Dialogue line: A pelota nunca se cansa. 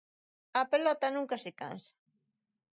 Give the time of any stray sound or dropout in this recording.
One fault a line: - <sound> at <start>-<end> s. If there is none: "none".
none